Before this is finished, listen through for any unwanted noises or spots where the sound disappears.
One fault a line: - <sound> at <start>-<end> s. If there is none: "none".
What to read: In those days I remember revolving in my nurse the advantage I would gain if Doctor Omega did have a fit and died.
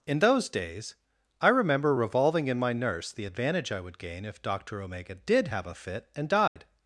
- dropout at 6.5-6.6 s